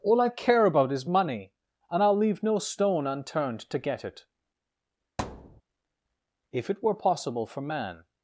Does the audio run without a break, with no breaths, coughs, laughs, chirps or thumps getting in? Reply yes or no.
no